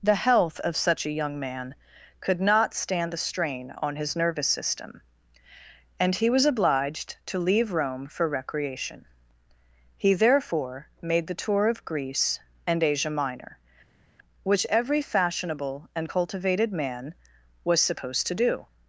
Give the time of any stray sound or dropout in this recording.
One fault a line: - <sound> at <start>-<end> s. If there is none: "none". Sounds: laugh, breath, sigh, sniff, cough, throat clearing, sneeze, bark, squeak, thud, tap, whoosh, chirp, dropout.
none